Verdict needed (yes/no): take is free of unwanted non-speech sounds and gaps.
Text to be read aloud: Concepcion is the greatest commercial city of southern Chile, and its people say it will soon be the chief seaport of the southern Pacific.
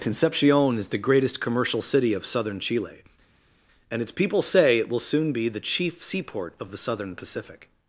yes